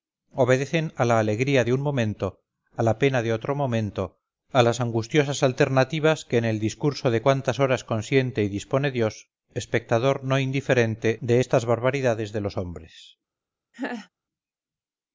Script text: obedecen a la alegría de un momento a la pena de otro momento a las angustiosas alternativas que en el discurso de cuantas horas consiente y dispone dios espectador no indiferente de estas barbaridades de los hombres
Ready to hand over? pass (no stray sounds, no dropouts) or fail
fail